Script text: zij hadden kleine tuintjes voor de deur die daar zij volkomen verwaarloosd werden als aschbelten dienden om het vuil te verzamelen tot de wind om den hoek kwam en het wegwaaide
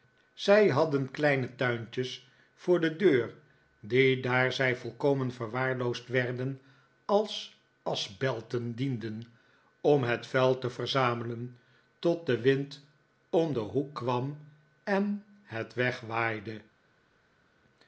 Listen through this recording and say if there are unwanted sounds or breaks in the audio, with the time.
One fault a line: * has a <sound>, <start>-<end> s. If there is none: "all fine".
all fine